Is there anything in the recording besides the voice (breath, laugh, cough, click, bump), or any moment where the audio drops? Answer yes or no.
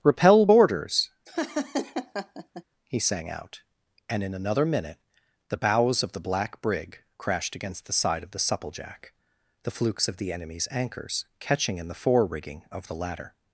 yes